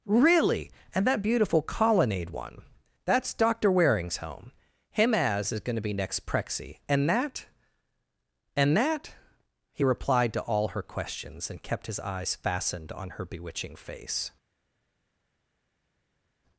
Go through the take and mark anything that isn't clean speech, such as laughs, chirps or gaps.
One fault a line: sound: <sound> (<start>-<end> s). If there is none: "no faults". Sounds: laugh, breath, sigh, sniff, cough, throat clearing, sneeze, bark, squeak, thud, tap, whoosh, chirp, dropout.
no faults